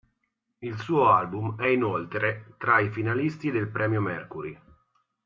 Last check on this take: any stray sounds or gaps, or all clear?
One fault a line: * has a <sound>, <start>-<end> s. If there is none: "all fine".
all fine